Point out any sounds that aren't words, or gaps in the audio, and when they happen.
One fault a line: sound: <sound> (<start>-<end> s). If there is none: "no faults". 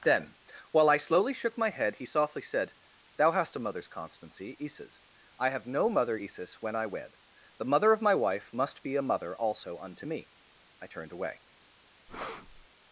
sound: breath (12.1-12.7 s)